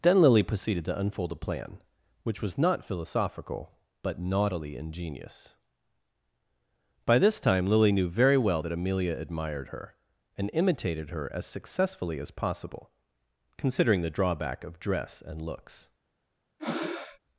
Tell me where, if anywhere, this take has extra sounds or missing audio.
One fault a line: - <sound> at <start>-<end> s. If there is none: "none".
- breath at 16.6-17.2 s